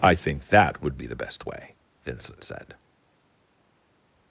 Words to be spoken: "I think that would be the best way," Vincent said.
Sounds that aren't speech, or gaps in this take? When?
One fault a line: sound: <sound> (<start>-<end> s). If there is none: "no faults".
no faults